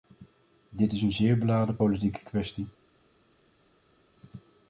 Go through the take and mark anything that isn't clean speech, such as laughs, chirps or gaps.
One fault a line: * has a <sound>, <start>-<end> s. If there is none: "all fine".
all fine